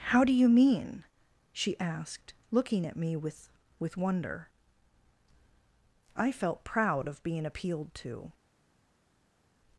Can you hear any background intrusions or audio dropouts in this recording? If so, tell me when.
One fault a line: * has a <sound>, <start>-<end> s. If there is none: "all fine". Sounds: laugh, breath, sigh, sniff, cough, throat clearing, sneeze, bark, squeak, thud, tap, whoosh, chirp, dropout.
all fine